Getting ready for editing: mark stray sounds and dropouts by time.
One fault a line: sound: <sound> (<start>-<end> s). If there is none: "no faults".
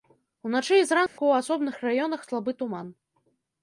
sound: dropout (1.1-1.2 s)